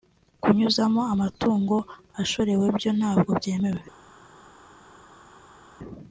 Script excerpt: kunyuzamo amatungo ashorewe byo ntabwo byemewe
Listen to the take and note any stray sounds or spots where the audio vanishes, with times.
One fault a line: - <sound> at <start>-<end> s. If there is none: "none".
none